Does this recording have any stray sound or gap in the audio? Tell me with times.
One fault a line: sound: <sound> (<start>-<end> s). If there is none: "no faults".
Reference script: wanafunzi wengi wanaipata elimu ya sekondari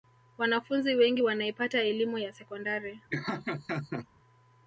sound: laugh (3.1-4.1 s)